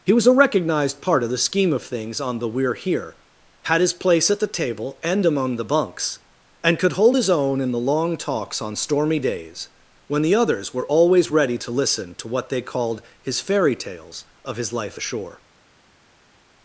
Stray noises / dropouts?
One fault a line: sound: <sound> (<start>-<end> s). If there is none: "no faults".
no faults